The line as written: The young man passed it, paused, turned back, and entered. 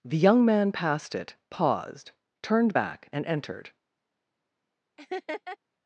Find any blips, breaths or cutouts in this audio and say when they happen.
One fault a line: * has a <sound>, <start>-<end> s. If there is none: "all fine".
* has a laugh, 5.0-5.6 s